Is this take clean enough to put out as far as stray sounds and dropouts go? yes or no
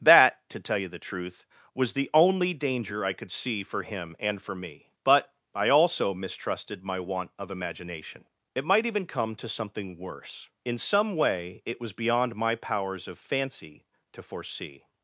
yes